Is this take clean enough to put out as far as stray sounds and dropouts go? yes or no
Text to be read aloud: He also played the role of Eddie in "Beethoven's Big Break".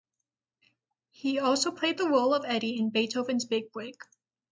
yes